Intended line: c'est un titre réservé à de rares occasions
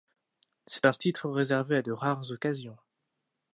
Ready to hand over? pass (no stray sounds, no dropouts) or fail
pass